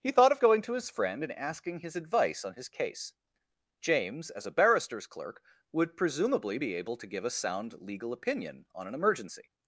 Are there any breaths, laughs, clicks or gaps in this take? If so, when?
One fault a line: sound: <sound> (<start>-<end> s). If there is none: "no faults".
no faults